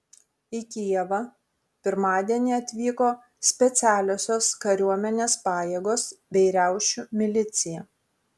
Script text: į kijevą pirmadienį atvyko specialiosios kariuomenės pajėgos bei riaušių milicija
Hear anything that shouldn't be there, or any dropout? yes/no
no